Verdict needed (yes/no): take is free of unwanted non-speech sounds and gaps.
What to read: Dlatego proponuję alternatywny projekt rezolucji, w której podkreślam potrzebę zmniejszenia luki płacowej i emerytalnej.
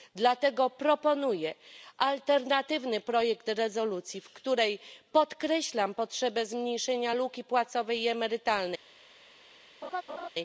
no